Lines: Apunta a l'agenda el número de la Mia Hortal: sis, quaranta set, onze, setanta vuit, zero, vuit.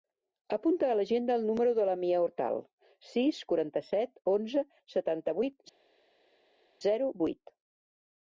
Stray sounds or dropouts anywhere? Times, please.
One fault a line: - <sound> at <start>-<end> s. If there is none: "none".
none